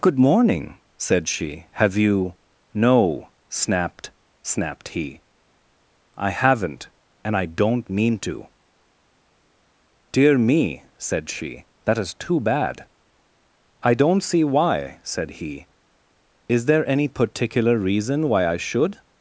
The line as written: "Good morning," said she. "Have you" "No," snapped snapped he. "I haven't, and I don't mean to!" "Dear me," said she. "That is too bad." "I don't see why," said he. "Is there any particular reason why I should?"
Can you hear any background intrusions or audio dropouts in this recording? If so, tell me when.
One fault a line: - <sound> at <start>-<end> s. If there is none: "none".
none